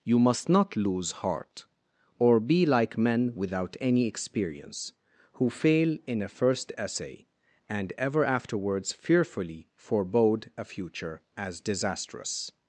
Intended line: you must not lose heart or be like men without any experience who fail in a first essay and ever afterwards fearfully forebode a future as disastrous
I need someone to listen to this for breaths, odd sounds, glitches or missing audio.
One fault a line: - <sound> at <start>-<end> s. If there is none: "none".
none